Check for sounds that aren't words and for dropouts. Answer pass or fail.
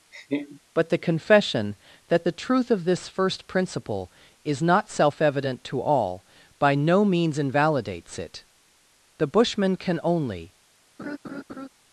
fail